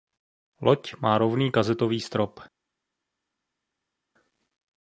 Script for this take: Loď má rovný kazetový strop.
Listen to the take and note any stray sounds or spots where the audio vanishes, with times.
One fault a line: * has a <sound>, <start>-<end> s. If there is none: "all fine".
all fine